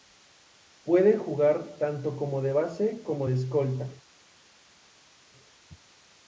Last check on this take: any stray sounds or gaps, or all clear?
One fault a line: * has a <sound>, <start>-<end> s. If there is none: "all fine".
all fine